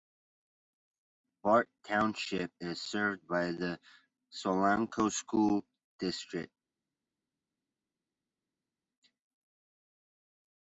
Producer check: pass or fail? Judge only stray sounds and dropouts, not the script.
pass